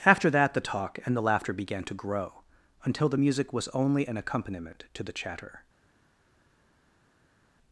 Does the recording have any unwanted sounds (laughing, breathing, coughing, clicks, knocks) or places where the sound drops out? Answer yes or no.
no